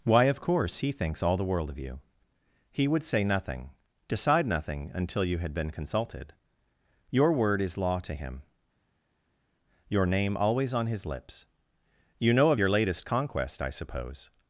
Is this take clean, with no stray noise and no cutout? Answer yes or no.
yes